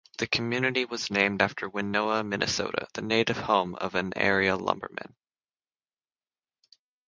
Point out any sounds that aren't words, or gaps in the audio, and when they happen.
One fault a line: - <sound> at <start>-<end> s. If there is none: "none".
none